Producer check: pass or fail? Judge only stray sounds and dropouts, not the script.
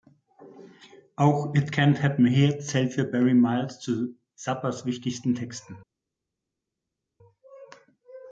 pass